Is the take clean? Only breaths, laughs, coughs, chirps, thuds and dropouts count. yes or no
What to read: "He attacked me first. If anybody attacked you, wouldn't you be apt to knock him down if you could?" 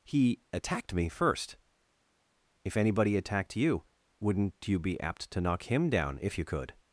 yes